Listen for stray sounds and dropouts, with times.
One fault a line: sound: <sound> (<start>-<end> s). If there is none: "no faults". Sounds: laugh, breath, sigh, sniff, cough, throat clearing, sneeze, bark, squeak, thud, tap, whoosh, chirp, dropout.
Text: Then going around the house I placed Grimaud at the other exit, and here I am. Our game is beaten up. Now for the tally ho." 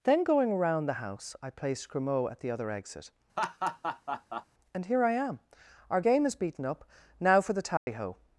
sound: laugh (3.4-4.5 s)
sound: dropout (7.8-7.9 s)